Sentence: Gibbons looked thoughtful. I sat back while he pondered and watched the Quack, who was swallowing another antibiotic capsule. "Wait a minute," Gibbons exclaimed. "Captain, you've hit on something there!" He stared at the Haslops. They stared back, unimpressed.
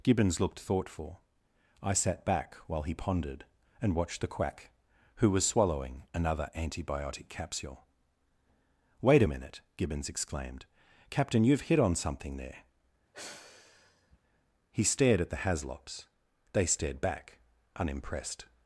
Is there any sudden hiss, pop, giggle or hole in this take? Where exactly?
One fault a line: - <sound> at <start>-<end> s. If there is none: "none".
- sigh at 13.1-14.2 s